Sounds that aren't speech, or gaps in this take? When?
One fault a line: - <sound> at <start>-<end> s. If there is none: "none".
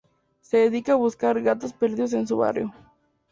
none